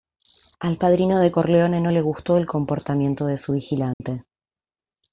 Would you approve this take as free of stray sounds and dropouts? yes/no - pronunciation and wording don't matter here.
no